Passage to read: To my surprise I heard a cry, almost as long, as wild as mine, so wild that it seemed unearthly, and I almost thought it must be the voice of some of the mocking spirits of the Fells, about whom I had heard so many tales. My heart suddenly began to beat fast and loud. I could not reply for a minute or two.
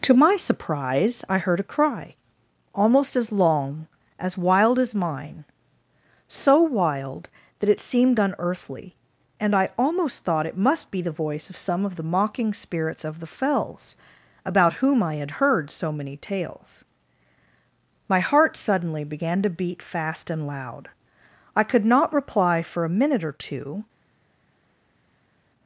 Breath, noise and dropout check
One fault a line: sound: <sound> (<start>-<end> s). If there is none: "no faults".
no faults